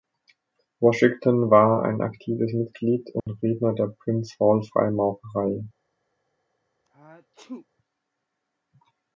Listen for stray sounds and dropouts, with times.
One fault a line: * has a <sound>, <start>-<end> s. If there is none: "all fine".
* has a dropout, 3.2-3.3 s
* has a sneeze, 6.8-7.7 s